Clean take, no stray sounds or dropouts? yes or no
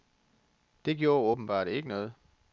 yes